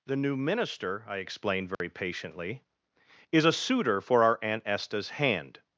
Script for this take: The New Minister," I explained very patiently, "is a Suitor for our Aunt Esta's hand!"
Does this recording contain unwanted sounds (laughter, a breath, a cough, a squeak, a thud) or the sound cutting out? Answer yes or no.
yes